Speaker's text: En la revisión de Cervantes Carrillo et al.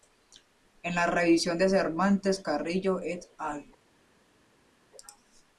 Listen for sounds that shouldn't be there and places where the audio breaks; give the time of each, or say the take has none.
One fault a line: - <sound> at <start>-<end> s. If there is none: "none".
none